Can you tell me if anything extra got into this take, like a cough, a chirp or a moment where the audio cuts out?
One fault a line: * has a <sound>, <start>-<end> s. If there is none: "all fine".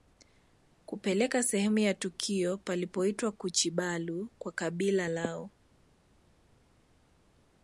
all fine